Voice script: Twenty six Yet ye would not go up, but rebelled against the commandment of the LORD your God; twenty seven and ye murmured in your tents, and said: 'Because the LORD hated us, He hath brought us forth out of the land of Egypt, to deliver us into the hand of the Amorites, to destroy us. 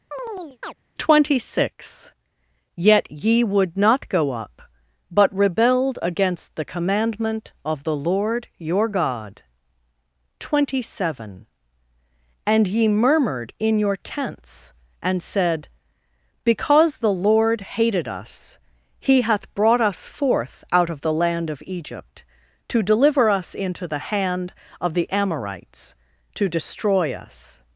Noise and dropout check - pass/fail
fail